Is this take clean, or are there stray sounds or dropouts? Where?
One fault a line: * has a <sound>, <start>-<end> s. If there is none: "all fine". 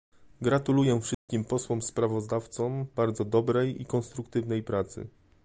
* has a dropout, 1.1-1.3 s